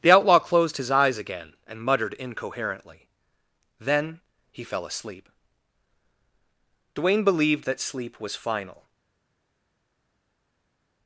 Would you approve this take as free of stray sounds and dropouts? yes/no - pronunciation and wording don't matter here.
yes